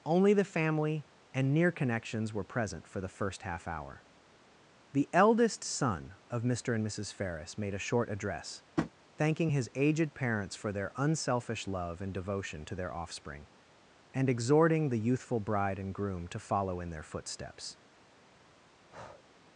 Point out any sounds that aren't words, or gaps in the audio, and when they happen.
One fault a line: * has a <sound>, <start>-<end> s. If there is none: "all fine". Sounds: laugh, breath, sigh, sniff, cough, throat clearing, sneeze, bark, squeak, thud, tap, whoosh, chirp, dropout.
* has a tap, 8.8-8.9 s
* has a breath, 18.9-19.2 s